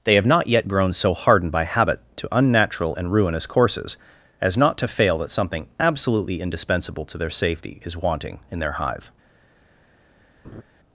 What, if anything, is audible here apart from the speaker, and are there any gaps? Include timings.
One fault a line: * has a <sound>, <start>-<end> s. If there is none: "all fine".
* has a laugh, 10.4-10.6 s